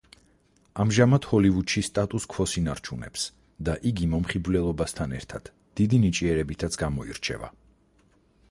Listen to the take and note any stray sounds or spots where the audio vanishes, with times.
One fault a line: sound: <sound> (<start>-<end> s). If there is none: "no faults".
no faults